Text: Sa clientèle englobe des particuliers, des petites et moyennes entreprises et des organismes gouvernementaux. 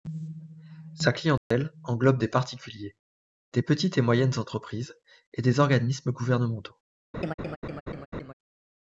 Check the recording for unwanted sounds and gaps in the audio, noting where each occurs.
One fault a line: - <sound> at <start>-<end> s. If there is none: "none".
- dropout at 1.4-1.5 s
- laugh at 7.1-8.3 s